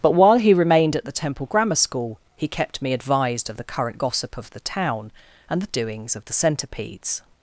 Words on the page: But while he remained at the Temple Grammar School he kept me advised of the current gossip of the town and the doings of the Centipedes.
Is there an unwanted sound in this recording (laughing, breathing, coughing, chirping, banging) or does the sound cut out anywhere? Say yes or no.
no